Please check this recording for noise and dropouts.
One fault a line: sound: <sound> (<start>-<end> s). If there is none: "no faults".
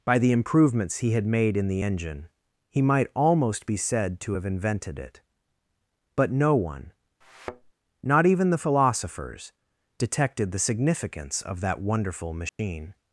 sound: thud (7.2-7.7 s)
sound: dropout (12.5-12.6 s)